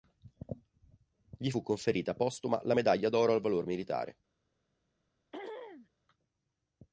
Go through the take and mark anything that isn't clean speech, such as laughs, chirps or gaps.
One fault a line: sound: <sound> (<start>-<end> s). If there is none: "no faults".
sound: throat clearing (5.3-5.9 s)